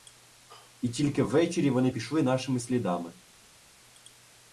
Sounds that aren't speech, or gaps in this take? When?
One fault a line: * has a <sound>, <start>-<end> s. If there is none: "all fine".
all fine